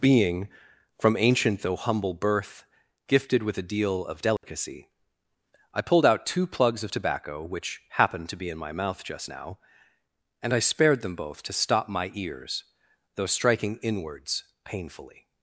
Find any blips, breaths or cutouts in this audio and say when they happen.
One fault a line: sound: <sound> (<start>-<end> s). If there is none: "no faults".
sound: dropout (4.4-4.4 s)